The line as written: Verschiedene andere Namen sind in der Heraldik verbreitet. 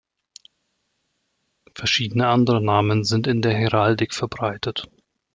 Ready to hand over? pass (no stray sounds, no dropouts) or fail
pass